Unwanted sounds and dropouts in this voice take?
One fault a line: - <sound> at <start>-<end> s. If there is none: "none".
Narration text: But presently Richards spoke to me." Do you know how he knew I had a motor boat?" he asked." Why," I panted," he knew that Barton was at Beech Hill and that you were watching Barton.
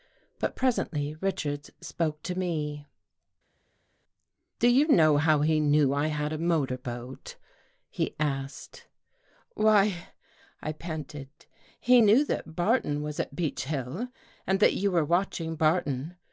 none